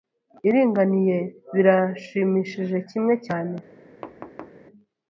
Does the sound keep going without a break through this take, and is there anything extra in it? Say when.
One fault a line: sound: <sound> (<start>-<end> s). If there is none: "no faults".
sound: thud (4.0-4.6 s)